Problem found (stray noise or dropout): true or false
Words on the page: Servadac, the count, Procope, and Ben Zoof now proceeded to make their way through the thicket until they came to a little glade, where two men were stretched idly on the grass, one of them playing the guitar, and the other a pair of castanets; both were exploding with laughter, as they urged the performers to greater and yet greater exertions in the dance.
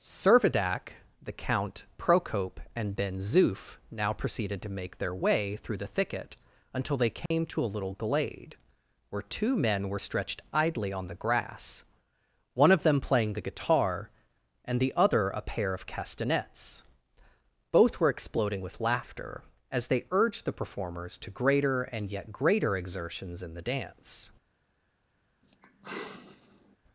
true